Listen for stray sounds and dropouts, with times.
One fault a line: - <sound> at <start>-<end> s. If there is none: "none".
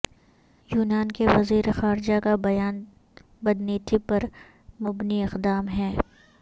none